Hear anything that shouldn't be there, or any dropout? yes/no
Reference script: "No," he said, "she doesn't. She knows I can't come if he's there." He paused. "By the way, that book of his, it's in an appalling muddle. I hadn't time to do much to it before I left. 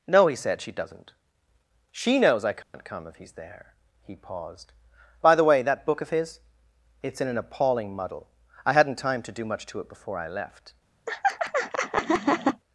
yes